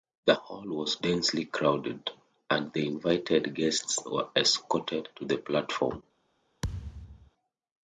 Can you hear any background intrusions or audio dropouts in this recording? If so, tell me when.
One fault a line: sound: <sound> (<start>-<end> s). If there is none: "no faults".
sound: thud (6.6-7.3 s)